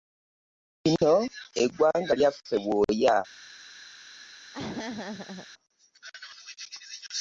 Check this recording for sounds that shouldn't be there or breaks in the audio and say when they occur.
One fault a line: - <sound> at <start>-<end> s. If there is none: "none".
- dropout at 1.0-1.0 s
- laugh at 4.5-5.5 s